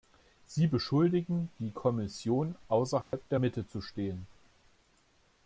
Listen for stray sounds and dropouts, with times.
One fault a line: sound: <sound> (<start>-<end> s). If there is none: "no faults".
sound: dropout (3.0-3.1 s)